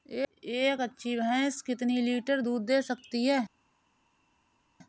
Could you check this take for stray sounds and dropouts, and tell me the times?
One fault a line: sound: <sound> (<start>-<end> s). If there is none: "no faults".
no faults